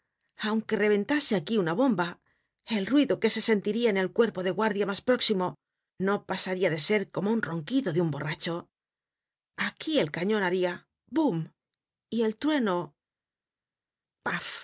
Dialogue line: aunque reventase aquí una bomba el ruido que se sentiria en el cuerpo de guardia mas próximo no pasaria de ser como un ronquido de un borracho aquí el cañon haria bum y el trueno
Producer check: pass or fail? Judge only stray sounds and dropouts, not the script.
pass